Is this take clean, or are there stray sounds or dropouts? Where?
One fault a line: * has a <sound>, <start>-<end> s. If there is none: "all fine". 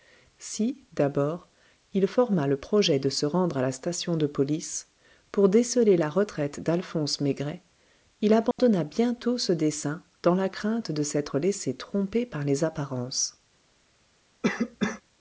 * has a dropout, 8.5-8.6 s
* has a cough, 14.4-15.0 s